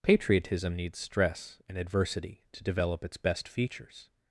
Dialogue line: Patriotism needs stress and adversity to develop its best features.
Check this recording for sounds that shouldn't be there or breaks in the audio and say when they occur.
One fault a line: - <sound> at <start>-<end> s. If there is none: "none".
none